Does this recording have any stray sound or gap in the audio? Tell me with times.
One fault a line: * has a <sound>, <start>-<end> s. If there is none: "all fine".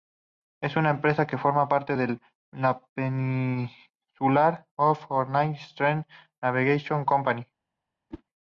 * has a whoosh, 8.1-8.2 s